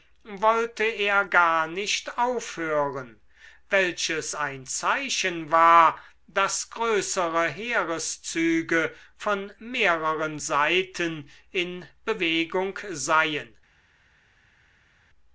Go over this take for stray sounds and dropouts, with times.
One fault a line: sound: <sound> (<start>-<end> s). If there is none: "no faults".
no faults